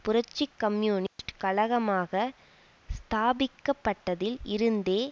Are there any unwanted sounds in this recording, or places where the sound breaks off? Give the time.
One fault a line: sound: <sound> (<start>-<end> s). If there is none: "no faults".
sound: dropout (1.1-1.2 s)